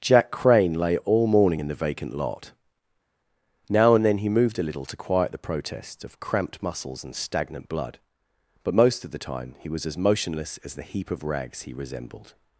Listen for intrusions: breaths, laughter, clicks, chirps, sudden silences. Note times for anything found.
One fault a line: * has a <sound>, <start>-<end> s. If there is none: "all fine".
all fine